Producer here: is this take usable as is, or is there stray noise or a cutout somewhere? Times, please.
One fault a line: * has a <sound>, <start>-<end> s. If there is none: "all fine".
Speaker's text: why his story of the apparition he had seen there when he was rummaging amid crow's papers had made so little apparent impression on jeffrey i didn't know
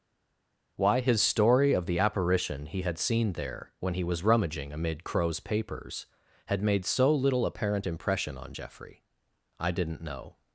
all fine